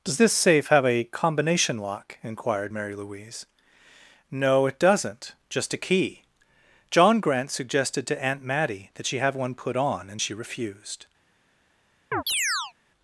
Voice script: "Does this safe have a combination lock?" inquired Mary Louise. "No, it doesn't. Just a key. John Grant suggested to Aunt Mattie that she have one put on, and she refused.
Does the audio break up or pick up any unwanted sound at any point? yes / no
yes